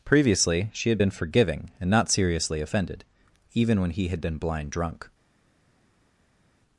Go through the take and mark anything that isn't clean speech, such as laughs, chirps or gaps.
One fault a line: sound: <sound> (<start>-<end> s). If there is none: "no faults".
no faults